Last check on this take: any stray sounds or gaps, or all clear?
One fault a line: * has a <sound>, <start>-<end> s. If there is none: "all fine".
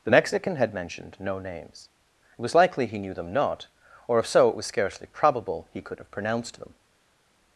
all fine